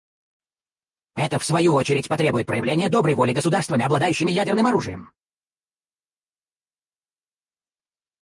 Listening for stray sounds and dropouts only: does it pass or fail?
pass